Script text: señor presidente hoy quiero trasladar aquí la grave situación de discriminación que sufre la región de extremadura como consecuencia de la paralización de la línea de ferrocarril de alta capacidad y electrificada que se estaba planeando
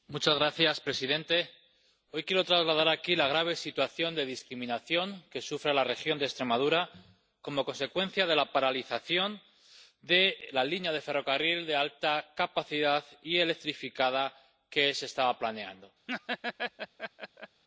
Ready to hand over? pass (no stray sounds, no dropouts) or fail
fail